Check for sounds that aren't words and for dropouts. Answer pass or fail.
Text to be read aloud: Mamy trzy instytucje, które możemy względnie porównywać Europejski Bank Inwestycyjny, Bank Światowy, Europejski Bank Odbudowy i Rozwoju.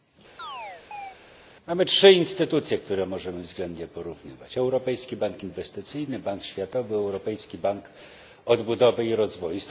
fail